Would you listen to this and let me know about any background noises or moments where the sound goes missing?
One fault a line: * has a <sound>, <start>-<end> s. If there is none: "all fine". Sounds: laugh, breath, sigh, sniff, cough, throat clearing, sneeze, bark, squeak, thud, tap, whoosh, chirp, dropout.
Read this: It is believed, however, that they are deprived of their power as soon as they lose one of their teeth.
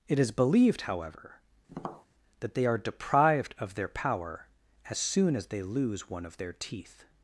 * has a tap, 1.7-2.1 s